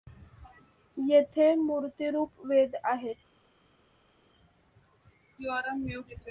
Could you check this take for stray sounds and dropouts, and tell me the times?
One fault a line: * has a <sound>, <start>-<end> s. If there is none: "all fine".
all fine